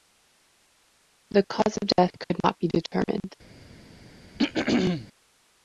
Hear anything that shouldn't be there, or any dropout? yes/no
yes